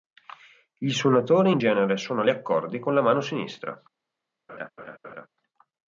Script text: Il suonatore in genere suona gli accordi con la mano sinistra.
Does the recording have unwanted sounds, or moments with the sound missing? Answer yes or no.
yes